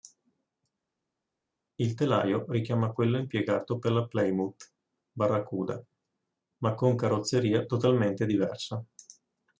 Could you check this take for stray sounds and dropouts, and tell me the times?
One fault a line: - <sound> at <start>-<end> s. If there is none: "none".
none